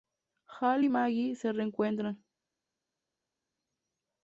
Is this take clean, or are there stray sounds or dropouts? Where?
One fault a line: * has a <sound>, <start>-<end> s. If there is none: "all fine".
all fine